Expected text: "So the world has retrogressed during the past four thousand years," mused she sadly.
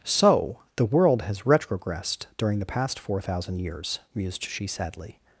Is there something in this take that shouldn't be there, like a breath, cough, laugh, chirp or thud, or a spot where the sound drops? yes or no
no